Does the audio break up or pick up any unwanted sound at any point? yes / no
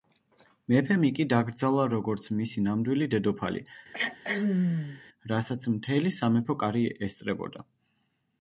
yes